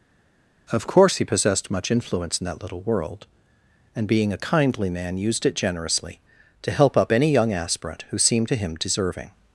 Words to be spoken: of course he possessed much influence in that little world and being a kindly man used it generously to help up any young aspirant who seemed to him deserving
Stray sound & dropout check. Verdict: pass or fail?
pass